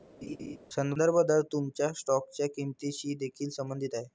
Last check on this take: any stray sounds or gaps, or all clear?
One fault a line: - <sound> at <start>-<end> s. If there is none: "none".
- laugh at 0.2-0.6 s